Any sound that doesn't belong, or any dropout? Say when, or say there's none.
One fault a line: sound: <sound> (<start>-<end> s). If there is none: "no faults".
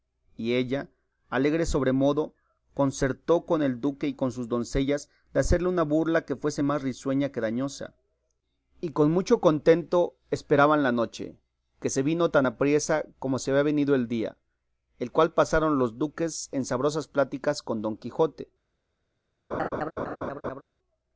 sound: laugh (19.5-20.6 s)